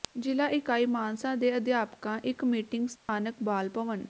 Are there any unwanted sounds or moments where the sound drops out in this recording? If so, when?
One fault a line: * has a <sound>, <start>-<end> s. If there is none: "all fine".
* has a dropout, 3.0-3.1 s